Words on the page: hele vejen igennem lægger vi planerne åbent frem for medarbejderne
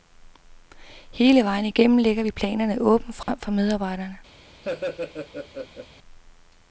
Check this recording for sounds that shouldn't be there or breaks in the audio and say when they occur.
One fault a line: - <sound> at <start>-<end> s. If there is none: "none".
- dropout at 3.2-3.3 s
- laugh at 4.6-5.9 s